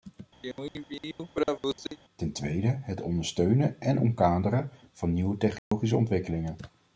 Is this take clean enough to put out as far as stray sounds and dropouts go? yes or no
no